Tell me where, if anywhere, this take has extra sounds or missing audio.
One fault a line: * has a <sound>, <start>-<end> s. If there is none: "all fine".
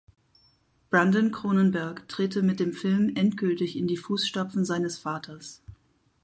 all fine